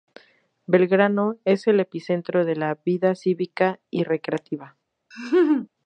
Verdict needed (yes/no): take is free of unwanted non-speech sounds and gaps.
no